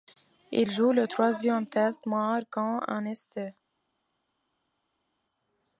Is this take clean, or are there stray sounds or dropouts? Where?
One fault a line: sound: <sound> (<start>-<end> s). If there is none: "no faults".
no faults